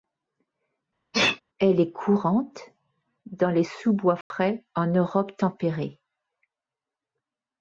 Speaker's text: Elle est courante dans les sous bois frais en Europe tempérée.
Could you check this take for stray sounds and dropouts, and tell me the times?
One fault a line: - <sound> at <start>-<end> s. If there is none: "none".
- sneeze at 1.1-1.4 s
- dropout at 4.2-4.3 s